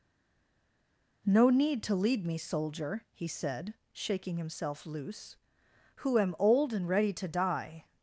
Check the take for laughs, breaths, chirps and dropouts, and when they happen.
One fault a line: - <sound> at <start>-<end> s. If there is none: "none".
none